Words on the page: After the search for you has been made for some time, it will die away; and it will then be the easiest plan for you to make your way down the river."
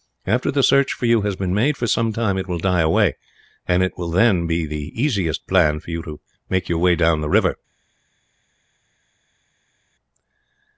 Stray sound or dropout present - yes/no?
no